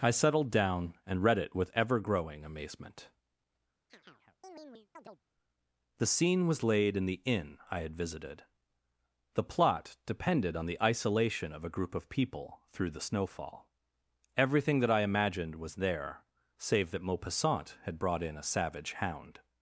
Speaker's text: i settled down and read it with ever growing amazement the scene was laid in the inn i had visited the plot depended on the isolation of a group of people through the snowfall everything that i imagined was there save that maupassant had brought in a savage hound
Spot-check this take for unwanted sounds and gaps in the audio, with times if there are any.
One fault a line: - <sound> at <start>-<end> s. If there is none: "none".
- chirp at 3.9-5.2 s